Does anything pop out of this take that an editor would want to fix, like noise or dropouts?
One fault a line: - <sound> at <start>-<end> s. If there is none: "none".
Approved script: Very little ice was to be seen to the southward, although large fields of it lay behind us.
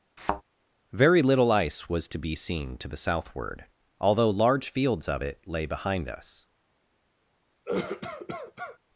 - thud at 0.2-0.4 s
- cough at 7.7-8.8 s